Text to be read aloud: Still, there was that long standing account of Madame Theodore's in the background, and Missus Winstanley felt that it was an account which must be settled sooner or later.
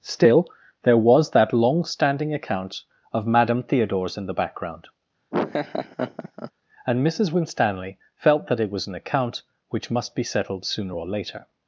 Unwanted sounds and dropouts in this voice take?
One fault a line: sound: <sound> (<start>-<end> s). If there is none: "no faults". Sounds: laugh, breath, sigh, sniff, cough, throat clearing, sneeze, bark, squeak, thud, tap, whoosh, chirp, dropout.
sound: laugh (5.3-6.5 s)